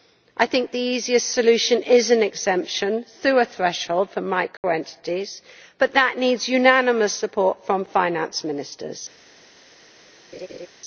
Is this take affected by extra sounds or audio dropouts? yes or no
yes